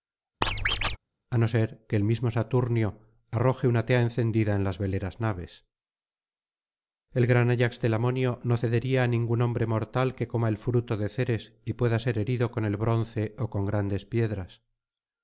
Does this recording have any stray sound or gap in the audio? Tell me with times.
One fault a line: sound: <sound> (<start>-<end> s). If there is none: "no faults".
sound: squeak (0.4-1.0 s)